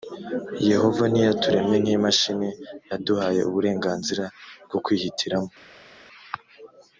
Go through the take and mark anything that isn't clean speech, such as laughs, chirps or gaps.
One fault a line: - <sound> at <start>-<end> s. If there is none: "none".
none